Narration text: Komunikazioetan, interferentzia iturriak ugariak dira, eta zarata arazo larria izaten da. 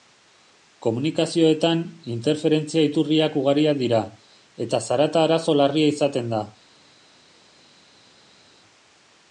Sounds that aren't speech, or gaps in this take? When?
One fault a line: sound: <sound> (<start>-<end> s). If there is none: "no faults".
no faults